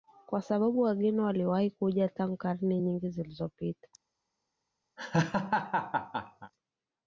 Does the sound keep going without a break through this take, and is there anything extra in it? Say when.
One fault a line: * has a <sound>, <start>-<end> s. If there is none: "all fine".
* has a laugh, 5.0-6.5 s